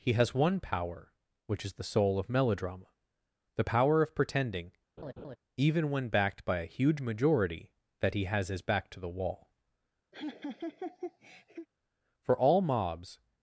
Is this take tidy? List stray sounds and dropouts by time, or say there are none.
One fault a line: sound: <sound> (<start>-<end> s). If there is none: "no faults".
sound: laugh (5.0-5.4 s)
sound: laugh (10.1-11.7 s)